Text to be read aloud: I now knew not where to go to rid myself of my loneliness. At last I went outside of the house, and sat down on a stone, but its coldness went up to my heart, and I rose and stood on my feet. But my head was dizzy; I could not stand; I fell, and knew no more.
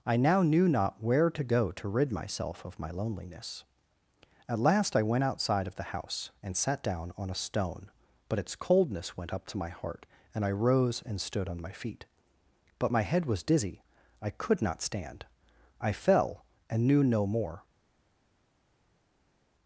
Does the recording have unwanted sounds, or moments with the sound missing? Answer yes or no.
no